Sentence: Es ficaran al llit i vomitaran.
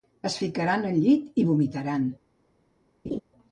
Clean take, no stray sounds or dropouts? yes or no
no